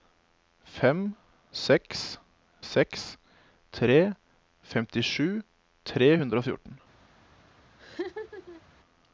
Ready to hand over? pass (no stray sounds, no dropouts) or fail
fail